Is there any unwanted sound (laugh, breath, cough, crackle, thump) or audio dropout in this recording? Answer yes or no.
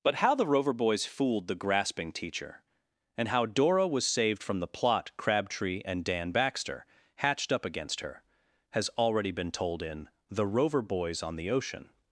no